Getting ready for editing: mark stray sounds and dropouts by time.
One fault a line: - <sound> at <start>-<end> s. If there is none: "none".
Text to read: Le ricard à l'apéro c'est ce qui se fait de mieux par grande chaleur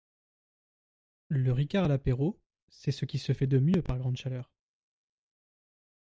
none